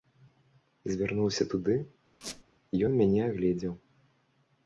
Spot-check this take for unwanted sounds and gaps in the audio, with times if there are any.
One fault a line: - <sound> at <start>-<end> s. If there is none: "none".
- squeak at 2.2-2.4 s